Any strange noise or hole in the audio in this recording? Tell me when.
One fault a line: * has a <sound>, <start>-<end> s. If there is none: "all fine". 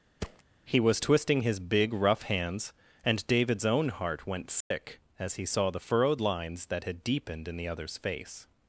* has a thud, 0.2-0.4 s
* has a dropout, 4.6-4.7 s